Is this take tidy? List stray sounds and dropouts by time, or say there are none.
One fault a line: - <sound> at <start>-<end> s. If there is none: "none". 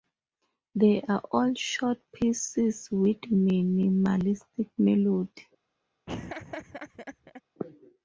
- laugh at 6.1-7.4 s